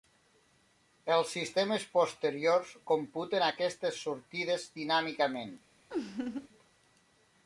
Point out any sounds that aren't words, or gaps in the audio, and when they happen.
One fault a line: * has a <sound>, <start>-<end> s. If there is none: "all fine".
* has a laugh, 5.9-6.5 s